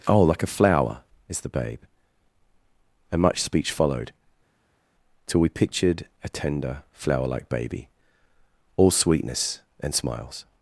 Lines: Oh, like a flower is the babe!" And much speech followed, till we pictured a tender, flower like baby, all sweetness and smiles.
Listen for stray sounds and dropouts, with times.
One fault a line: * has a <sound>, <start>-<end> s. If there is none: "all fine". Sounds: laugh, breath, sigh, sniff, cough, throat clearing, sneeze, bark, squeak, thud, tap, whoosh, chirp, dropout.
all fine